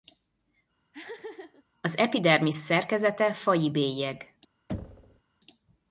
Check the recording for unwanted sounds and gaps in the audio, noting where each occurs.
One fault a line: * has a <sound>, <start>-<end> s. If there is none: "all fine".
* has a laugh, 0.9-1.6 s
* has a thud, 4.7-5.2 s